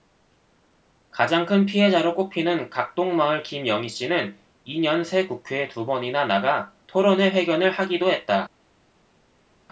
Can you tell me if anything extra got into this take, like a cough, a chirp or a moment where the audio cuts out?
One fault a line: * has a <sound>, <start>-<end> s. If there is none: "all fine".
all fine